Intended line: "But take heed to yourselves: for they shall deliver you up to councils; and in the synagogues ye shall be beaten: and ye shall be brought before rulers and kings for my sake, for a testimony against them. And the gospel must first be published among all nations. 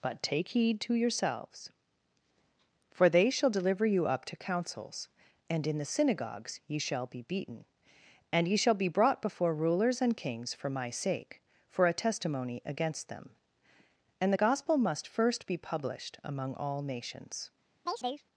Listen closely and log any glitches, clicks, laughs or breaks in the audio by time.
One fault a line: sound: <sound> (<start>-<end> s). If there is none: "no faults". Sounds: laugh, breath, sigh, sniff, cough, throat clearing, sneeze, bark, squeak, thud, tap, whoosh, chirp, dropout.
sound: chirp (17.9-18.2 s)